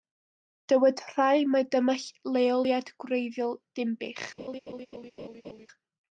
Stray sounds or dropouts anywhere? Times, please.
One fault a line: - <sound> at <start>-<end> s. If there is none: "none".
- laugh at 4.4-5.7 s